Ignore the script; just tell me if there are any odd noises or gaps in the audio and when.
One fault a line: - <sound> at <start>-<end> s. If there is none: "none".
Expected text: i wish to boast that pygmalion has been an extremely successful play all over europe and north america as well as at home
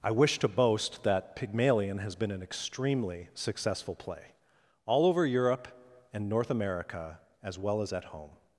none